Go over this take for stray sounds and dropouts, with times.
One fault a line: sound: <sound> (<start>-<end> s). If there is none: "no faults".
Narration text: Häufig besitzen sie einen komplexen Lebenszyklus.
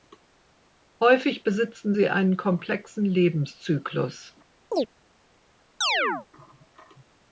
sound: chirp (4.7-4.9 s)
sound: chirp (5.8-6.3 s)